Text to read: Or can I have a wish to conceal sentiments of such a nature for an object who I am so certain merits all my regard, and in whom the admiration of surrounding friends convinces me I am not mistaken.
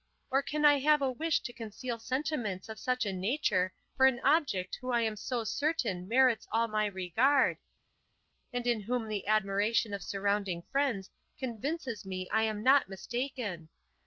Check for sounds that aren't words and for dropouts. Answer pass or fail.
pass